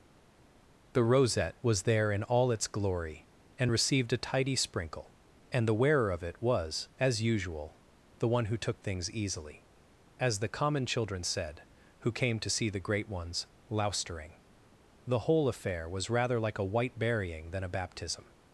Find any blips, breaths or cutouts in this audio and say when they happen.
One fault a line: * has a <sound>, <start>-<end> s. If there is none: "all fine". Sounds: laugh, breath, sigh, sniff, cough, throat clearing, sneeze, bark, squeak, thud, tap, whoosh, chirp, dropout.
all fine